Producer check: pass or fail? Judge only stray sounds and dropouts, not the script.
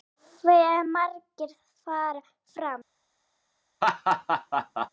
fail